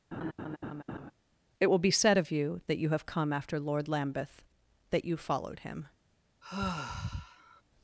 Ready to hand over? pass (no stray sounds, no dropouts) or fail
fail